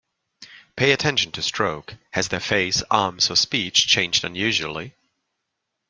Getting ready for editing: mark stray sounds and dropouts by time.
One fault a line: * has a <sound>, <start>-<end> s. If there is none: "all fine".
all fine